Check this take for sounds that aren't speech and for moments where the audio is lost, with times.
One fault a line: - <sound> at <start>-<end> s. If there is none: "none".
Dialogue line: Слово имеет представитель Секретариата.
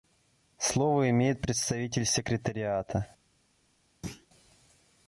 - thud at 4.0-4.3 s